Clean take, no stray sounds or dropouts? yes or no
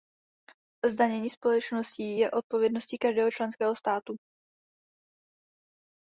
yes